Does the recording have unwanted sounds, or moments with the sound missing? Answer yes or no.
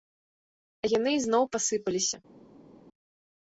no